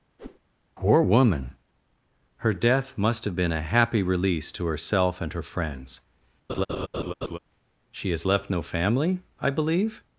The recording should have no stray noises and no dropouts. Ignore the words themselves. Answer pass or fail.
fail